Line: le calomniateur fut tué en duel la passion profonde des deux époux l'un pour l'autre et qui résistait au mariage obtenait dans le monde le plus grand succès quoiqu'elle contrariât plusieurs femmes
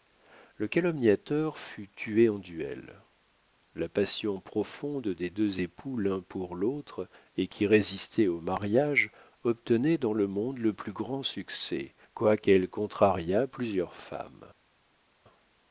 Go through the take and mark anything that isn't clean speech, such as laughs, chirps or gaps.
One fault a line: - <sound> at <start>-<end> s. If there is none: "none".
none